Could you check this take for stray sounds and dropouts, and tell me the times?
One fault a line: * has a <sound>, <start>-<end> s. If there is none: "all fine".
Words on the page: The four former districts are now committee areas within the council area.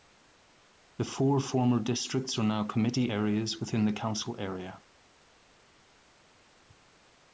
all fine